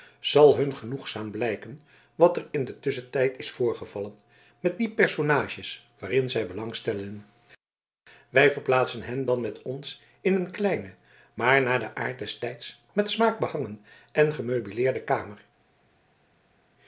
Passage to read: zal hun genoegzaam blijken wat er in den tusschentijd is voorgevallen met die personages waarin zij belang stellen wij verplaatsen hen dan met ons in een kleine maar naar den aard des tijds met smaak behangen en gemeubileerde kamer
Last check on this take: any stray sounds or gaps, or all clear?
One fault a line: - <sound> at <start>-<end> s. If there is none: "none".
none